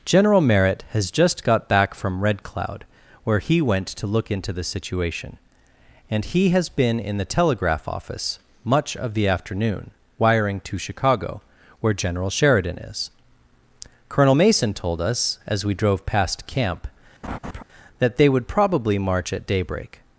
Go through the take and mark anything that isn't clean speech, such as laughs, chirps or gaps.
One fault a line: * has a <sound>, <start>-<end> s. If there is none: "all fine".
* has a laugh, 17.2-17.6 s